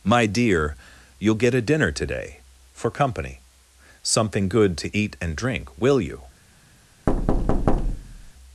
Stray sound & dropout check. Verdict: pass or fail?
fail